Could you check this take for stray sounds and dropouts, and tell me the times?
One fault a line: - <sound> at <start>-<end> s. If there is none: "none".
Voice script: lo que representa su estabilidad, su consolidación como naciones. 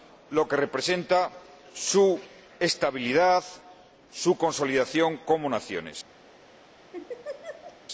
- laugh at 6.9-7.8 s